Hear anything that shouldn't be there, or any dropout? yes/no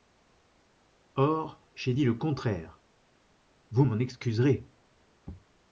no